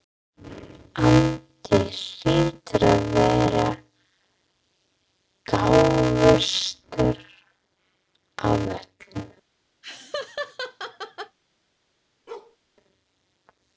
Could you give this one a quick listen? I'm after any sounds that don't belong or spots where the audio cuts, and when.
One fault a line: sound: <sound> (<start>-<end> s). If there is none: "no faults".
sound: laugh (9.8-11.4 s)
sound: bark (12.3-12.6 s)